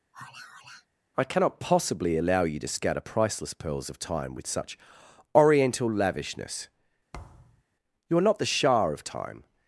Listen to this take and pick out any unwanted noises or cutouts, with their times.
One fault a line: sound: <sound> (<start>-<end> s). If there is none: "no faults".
sound: sigh (0.1-0.9 s)
sound: thud (7.1-7.6 s)